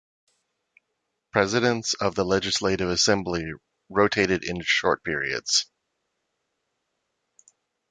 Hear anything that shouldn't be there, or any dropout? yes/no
no